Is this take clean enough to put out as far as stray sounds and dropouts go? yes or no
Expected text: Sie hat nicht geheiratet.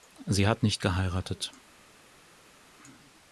yes